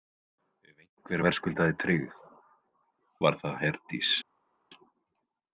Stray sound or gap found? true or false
false